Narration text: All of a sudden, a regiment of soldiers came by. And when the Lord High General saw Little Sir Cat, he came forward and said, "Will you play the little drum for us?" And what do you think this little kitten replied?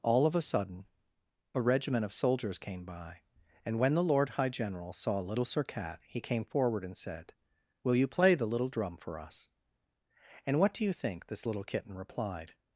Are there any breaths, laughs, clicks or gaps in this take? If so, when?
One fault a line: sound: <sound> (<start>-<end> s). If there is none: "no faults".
no faults